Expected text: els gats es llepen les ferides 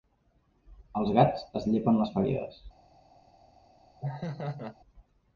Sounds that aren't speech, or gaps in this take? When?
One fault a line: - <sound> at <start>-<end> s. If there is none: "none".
- laugh at 4.0-4.8 s